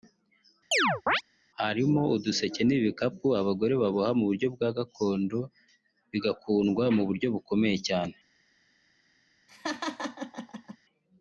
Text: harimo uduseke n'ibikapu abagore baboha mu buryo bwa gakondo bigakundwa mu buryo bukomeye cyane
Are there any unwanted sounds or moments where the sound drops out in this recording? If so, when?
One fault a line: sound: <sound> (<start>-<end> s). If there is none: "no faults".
sound: chirp (0.7-1.2 s)
sound: laugh (9.5-10.8 s)